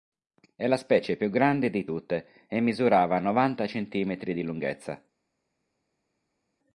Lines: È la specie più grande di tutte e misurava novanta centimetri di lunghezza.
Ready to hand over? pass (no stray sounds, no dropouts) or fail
pass